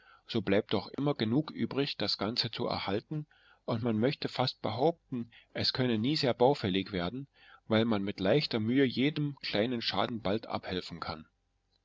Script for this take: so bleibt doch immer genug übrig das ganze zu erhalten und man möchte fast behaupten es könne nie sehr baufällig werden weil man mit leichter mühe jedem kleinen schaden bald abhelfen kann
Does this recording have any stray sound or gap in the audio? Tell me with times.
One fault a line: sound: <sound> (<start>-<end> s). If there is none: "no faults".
sound: dropout (0.9-1.0 s)